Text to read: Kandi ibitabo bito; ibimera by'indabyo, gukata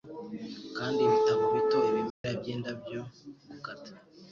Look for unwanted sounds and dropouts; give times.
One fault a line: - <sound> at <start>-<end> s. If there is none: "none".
- dropout at 2.1-2.2 s